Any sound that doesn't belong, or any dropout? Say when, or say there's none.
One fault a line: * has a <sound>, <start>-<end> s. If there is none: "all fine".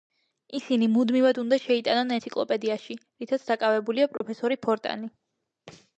* has a dropout, 4.2-4.2 s